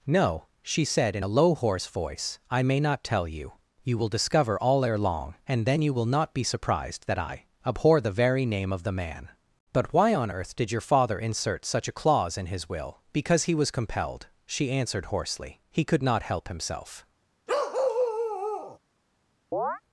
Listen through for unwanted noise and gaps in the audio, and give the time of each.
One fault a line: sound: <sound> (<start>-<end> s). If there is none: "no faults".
sound: bark (17.5-18.8 s)
sound: chirp (19.5-19.8 s)